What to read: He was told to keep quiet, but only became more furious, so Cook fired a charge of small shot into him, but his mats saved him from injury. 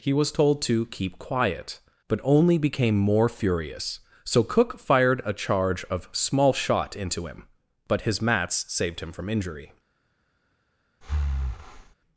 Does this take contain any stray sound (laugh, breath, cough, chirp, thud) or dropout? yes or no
yes